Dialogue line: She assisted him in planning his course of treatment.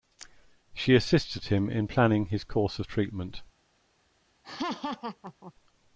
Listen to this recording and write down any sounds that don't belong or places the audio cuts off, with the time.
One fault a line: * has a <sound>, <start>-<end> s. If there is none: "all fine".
* has a laugh, 4.4-5.5 s